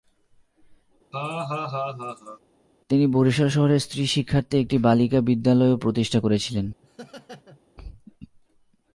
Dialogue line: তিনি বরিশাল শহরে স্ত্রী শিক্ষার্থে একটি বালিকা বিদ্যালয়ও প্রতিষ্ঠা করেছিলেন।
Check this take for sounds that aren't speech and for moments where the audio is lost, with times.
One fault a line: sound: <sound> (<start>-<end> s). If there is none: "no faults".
sound: laugh (1.1-2.4 s)
sound: laugh (6.8-7.6 s)